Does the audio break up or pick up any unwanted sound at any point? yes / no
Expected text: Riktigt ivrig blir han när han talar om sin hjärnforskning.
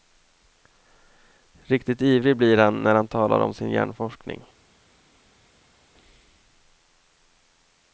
no